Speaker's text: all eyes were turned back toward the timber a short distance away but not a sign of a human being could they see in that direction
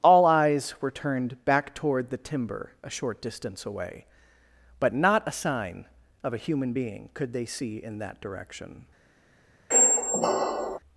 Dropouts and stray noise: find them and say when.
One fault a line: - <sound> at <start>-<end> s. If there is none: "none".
- squeak at 9.7-10.8 s